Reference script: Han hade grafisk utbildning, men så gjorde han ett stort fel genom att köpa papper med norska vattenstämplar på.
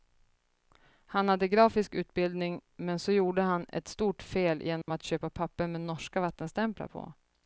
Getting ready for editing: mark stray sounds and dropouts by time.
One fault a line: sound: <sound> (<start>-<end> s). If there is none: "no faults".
sound: dropout (4.8-4.9 s)